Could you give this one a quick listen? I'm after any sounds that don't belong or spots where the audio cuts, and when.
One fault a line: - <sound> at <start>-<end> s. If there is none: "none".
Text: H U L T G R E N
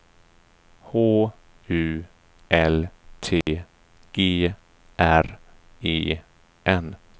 - dropout at 3.4-3.5 s